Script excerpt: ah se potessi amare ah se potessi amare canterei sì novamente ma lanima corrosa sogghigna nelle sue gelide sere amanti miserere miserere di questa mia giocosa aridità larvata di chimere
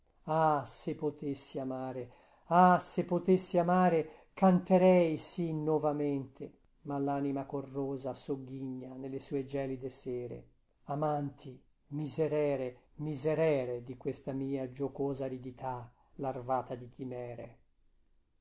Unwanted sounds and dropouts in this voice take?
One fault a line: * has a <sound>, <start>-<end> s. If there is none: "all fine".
all fine